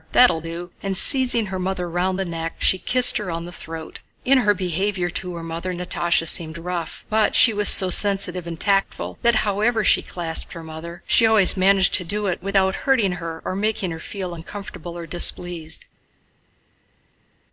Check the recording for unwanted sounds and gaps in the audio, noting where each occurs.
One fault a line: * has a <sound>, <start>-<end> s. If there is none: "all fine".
all fine